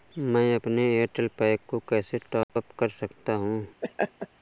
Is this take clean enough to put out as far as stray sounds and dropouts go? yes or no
no